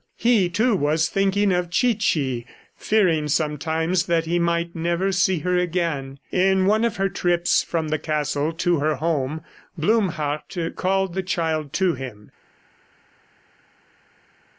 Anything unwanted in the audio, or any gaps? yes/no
no